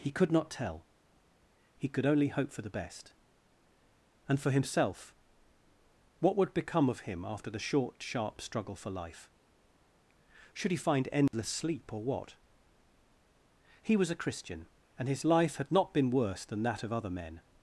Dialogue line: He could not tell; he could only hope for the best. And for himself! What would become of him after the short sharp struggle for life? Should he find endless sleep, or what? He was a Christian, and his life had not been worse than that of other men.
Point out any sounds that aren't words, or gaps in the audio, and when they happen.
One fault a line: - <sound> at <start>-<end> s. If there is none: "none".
- dropout at 11.3-11.3 s